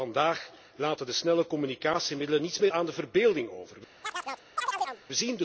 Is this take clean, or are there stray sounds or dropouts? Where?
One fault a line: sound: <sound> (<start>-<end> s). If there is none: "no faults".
sound: chirp (4.0-5.0 s)